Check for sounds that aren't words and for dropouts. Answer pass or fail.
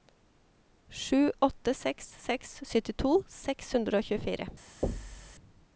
fail